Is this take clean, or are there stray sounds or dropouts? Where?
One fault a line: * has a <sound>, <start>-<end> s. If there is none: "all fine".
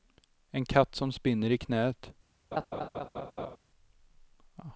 * has a laugh, 2.5-3.6 s